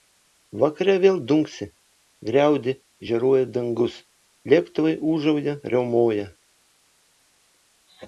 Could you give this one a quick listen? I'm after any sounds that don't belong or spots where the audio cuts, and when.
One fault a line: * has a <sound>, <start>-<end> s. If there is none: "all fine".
all fine